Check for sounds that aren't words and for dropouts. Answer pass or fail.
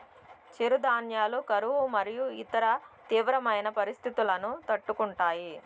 pass